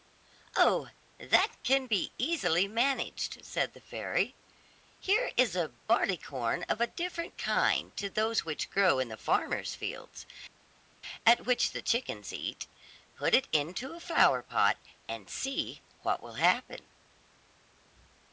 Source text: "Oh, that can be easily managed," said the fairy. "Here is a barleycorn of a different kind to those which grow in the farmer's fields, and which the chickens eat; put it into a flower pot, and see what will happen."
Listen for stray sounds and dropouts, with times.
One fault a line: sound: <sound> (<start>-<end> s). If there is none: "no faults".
no faults